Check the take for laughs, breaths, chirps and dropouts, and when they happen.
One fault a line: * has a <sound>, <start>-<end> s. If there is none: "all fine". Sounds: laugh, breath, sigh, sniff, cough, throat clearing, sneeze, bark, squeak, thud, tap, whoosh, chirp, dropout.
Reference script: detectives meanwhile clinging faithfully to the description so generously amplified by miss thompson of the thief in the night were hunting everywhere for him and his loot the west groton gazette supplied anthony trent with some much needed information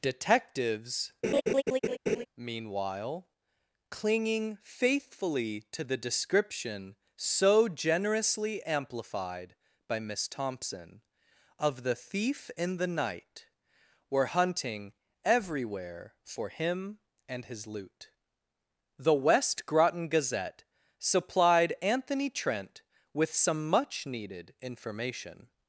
* has a laugh, 1.2-2.3 s